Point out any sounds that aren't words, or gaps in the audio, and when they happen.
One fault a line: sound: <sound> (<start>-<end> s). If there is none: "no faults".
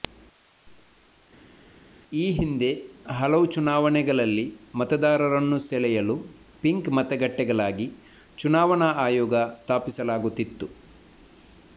no faults